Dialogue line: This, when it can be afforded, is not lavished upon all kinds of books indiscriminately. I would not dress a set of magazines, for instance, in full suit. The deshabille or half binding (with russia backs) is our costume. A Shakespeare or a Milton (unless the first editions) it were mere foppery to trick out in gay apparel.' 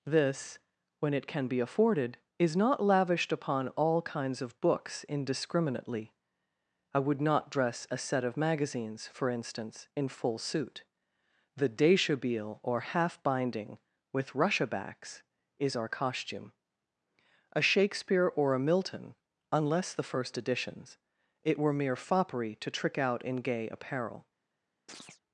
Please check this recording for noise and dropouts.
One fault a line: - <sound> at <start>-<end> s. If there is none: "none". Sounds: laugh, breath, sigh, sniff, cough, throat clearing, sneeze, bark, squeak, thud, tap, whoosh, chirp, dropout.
- chirp at 24.9-25.2 s